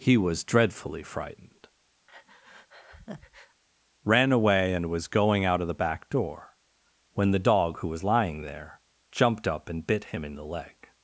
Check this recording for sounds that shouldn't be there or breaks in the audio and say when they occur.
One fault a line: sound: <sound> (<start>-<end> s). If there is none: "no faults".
sound: breath (2.1-3.6 s)